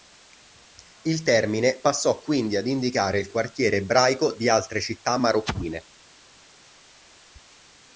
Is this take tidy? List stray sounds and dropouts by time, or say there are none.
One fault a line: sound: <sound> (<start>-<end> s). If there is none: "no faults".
no faults